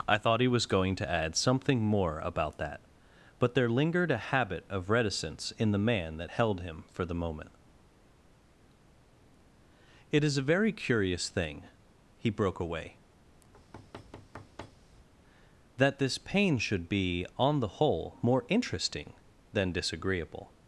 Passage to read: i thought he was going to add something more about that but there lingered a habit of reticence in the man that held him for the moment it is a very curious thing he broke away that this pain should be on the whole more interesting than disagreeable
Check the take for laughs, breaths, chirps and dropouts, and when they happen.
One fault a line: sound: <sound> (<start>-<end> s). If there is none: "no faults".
sound: thud (13.5-15.1 s)